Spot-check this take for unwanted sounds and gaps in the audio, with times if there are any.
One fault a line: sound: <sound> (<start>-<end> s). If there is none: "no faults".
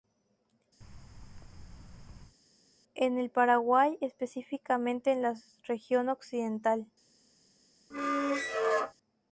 sound: thud (0.8-2.4 s)
sound: squeak (7.9-8.9 s)